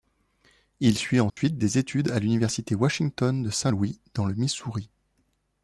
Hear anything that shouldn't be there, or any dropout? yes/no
yes